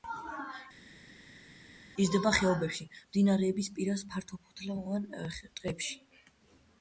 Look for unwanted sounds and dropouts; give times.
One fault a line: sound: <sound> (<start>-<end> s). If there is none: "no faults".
no faults